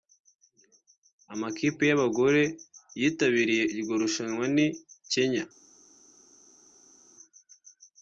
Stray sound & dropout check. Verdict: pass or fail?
pass